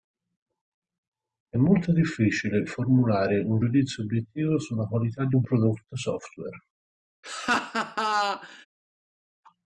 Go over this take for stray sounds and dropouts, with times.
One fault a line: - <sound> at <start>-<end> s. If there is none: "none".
- laugh at 7.2-8.7 s